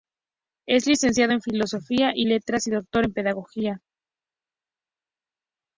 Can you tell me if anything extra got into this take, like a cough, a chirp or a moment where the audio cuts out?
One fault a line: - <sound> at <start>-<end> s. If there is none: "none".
none